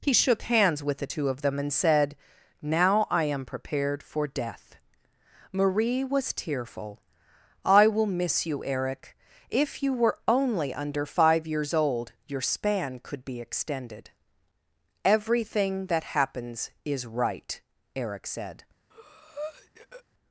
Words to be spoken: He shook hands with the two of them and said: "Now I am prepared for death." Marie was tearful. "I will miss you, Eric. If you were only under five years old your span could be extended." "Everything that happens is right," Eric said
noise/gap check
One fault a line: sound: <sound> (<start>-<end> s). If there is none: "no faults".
sound: breath (18.9-20.0 s)